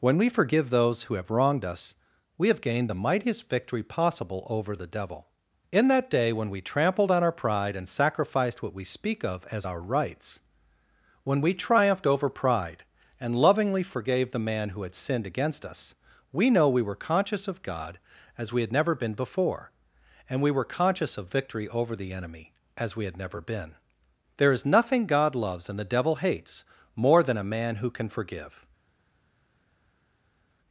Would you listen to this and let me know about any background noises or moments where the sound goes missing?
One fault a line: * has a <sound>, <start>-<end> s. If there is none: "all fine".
all fine